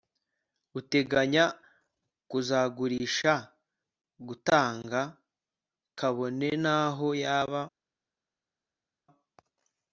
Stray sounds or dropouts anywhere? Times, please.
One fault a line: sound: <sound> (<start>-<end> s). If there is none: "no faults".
no faults